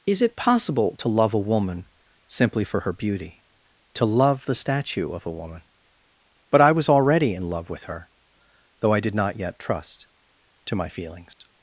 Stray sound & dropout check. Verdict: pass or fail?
fail